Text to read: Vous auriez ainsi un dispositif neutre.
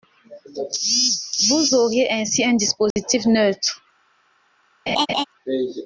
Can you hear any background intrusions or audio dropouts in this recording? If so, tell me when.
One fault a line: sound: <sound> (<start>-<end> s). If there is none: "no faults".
sound: dropout (2.9-3.0 s)
sound: laugh (4.9-5.2 s)